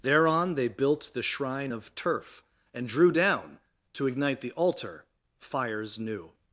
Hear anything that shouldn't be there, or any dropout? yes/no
no